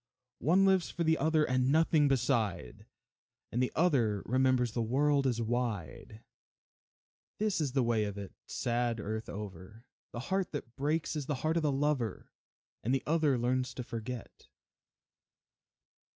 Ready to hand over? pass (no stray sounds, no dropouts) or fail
pass